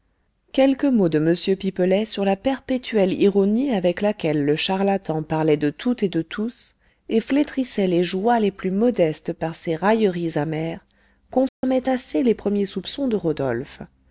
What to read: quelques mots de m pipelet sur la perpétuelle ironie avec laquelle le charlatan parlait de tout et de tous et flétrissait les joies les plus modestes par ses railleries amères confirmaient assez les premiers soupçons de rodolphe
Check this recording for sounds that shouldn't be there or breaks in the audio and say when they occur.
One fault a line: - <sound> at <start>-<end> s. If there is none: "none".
- dropout at 11.5-11.6 s